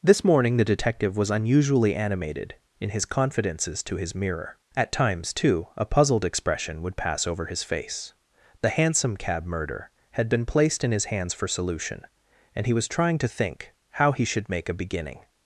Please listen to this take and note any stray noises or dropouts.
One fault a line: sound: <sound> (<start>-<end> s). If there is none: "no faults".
no faults